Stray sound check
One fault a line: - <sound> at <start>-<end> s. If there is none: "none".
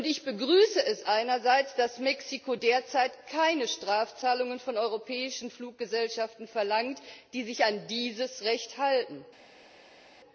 none